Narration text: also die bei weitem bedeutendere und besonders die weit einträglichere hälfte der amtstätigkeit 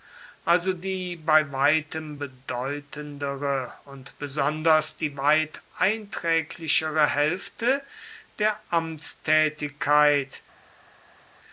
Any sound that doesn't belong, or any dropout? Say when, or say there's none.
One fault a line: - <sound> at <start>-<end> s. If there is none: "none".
none